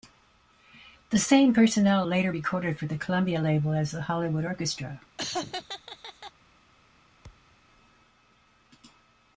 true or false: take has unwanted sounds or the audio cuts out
true